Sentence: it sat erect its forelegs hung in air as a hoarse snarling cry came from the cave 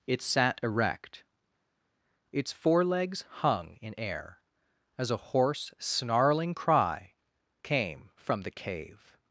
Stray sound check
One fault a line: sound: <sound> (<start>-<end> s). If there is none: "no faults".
no faults